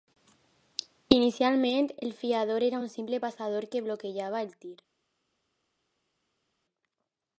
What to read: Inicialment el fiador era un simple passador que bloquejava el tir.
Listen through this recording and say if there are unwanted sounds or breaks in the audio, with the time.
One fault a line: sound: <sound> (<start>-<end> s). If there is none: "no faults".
no faults